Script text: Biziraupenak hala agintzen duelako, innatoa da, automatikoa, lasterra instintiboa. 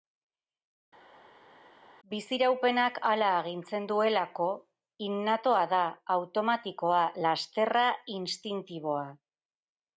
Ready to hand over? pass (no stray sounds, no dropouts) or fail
pass